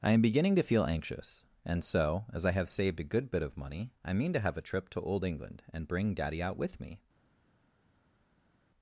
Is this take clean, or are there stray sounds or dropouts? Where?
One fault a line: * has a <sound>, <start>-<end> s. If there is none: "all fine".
all fine